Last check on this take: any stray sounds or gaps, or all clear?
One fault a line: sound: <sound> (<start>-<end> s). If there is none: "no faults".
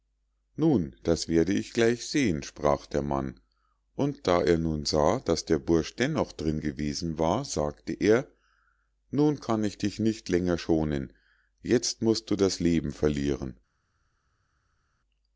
no faults